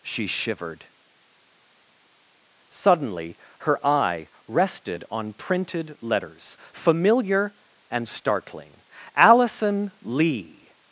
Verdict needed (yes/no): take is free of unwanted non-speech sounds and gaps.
yes